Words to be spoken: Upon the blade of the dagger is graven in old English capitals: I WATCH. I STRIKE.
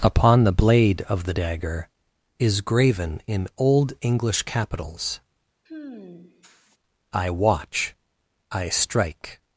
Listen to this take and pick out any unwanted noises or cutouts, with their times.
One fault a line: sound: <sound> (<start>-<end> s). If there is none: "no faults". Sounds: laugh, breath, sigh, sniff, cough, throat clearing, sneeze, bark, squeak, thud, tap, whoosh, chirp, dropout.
sound: sigh (5.7-6.8 s)